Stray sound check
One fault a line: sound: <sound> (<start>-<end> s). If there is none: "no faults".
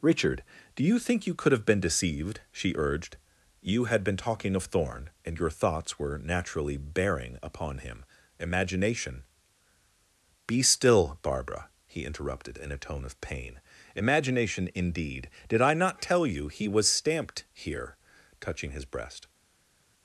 no faults